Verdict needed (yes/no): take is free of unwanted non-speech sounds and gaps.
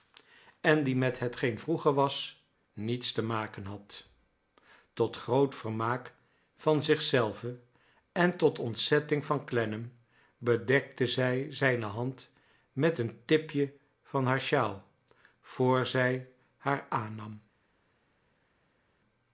yes